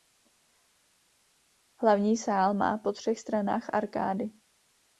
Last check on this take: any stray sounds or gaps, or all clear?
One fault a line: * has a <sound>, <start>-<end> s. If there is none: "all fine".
all fine